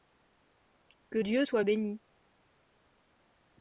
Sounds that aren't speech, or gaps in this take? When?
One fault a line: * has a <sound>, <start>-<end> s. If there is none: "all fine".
all fine